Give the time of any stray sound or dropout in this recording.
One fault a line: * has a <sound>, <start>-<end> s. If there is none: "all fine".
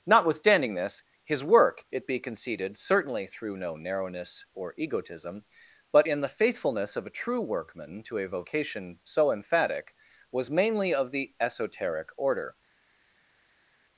all fine